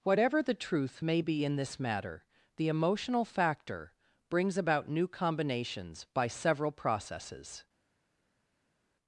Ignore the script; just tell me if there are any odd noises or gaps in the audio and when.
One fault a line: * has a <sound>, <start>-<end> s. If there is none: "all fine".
all fine